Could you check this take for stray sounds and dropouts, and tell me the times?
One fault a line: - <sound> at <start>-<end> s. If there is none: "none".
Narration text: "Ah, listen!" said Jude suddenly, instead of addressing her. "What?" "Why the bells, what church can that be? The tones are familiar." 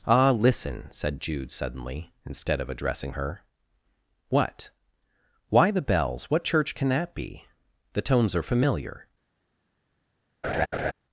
- laugh at 10.4-10.9 s